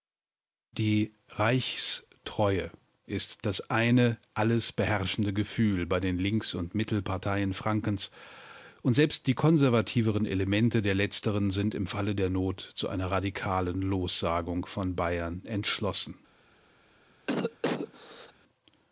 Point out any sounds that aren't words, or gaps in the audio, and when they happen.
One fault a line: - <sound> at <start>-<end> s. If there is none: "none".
- cough at 17.3-18.3 s